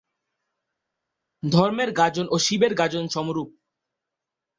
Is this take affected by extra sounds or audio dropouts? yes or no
no